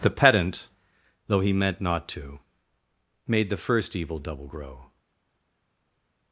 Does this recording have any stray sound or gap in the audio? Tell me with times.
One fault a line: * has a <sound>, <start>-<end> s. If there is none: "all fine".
all fine